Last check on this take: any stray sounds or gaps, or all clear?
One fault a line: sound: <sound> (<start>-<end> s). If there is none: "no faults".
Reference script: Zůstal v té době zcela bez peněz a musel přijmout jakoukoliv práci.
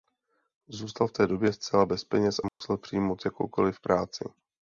sound: dropout (2.5-2.6 s)